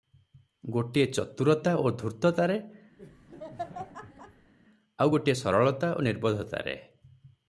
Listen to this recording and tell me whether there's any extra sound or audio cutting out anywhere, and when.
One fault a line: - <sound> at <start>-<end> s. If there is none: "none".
- laugh at 3.0-4.5 s